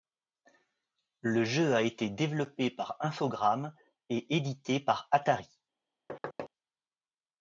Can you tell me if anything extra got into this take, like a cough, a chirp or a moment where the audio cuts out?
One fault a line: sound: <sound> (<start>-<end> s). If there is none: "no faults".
sound: thud (6.1-6.5 s)